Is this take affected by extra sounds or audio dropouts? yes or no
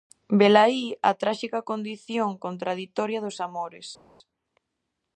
no